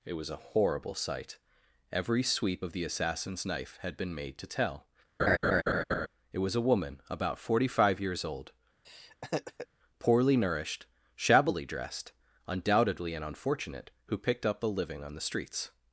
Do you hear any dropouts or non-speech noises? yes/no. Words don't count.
yes